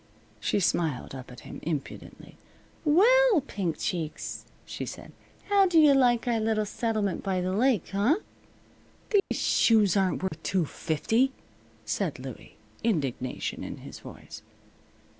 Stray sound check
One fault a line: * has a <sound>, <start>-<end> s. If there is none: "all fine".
* has a dropout, 9.2-9.3 s
* has a dropout, 10.3-10.3 s